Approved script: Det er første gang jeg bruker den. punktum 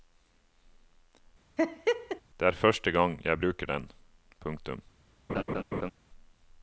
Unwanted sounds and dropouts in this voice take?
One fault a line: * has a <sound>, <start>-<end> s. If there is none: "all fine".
* has a laugh, 1.6-2.2 s
* has a laugh, 5.3-5.9 s